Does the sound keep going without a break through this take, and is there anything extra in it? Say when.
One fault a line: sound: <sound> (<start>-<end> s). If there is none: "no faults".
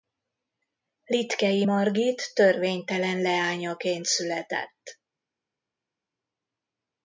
no faults